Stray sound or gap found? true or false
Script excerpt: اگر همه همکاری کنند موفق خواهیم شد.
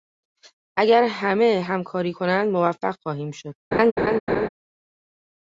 true